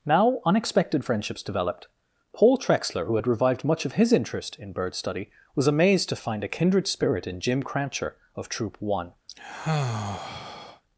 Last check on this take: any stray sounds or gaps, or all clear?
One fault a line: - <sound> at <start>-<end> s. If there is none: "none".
- sigh at 9.3-10.8 s